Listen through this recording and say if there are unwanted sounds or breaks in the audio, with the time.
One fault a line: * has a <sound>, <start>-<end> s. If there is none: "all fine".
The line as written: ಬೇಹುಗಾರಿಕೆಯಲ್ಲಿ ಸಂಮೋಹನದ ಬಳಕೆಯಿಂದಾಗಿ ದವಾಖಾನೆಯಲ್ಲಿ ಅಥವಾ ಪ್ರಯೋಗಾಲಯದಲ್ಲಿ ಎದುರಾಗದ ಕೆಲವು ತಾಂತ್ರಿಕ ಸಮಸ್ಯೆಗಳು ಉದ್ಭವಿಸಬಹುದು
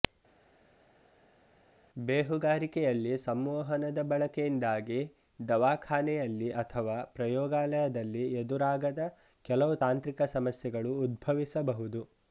all fine